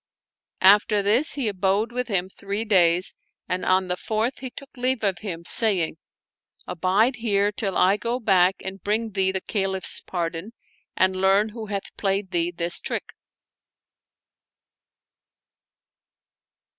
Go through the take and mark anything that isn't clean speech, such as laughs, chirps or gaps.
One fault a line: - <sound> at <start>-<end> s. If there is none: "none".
none